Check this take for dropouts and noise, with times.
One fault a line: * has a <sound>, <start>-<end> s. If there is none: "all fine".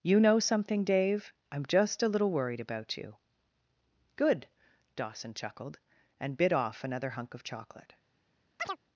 * has a chirp, 8.6-8.8 s